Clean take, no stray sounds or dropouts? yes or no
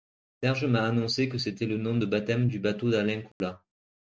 no